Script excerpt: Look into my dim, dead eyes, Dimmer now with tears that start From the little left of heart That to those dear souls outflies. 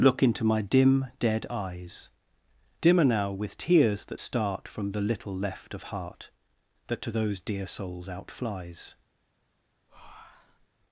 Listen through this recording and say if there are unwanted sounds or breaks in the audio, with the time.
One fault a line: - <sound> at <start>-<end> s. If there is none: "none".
- breath at 9.9-10.7 s